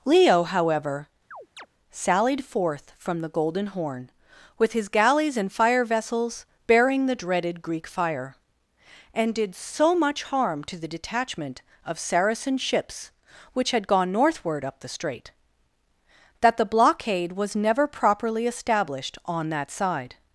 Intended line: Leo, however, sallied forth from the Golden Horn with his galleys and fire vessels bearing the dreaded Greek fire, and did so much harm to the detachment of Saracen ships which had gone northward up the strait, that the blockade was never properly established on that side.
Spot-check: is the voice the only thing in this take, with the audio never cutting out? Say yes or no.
no